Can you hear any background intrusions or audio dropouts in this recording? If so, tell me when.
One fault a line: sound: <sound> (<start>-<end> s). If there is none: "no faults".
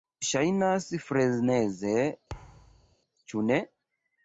sound: thud (2.3-3.0 s)